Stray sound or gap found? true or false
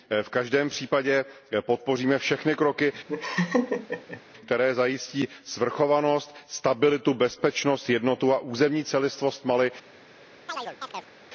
true